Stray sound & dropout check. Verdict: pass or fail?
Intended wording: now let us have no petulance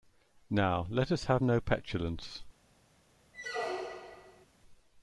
fail